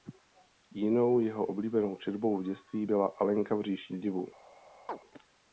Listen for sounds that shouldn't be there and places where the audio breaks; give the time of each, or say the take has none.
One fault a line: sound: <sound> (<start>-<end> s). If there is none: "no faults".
sound: chirp (4.9-5.0 s)